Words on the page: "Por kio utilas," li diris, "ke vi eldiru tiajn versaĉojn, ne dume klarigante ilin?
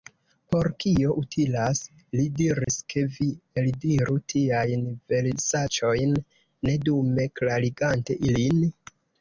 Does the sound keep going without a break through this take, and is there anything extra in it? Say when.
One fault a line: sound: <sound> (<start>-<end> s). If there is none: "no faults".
sound: dropout (2.6-2.7 s)